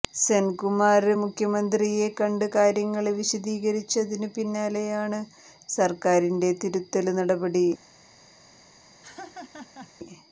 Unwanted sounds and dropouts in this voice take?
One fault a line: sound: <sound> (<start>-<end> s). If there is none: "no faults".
sound: laugh (9.0-9.9 s)